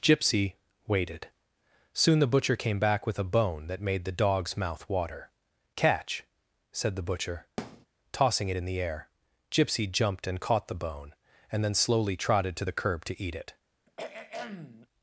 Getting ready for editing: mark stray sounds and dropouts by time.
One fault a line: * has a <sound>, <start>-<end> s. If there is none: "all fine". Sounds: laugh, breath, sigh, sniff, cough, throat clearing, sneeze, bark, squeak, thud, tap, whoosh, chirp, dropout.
* has a thud, 7.6-7.9 s
* has a throat clearing, 13.9-14.9 s